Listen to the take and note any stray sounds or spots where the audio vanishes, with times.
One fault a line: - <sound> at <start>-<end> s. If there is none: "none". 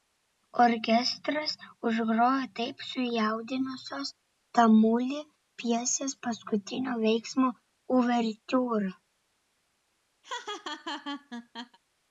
- laugh at 10.2-11.8 s